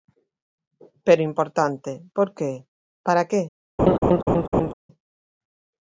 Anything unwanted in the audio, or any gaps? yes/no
yes